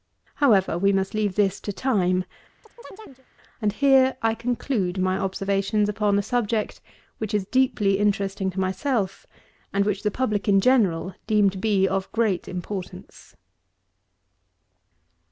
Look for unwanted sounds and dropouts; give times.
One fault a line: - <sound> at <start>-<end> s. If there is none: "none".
- chirp at 2.6-3.3 s